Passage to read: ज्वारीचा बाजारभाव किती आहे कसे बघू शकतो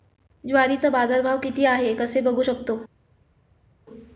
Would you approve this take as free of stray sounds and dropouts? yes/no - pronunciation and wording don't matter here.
yes